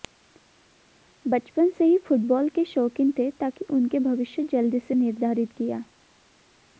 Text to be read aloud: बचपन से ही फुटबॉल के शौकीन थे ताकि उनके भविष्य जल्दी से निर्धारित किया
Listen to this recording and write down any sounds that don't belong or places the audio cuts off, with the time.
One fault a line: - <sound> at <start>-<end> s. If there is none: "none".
none